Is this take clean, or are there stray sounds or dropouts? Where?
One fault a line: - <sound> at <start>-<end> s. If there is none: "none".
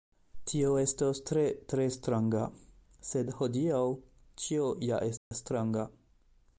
- dropout at 5.2-5.3 s